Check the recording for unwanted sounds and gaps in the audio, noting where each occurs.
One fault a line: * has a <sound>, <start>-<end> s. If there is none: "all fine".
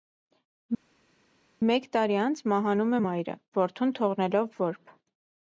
all fine